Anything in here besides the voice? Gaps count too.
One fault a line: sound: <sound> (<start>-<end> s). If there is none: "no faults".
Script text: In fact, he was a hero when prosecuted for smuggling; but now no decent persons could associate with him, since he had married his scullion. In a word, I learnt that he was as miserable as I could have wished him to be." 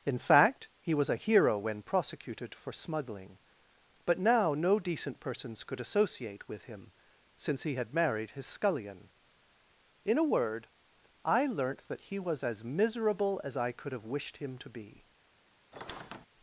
sound: squeak (15.7-16.3 s)